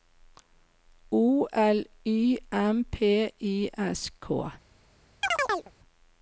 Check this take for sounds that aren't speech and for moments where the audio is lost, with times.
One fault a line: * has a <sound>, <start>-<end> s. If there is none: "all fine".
* has a chirp, 5.2-5.7 s